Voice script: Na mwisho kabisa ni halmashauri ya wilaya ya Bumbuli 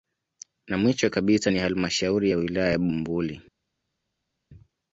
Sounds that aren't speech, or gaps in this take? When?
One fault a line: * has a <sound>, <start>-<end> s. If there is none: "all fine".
all fine